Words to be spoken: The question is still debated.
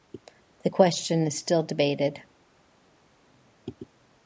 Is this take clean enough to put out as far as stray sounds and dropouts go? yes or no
yes